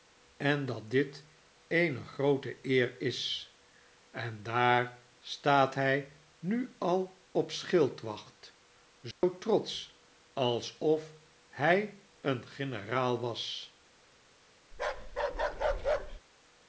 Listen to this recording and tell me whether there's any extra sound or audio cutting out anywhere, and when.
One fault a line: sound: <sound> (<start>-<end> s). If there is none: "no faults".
sound: dropout (9.1-9.2 s)
sound: bark (14.7-16.2 s)